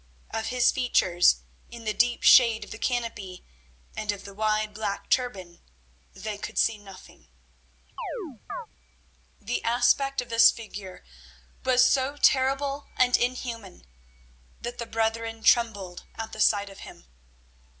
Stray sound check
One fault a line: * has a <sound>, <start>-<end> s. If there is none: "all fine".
* has a chirp, 8.0-8.7 s